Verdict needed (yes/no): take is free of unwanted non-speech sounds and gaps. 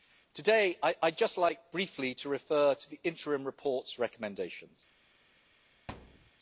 no